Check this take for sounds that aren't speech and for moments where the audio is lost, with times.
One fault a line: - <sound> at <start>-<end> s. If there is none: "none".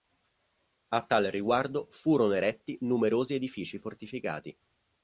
none